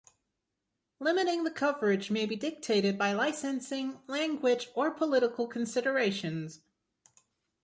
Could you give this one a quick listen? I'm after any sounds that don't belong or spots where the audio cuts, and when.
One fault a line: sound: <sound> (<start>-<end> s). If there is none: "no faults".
no faults